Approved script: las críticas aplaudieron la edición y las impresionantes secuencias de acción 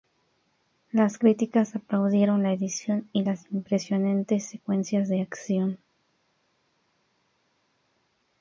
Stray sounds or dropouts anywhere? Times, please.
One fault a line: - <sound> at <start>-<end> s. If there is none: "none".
none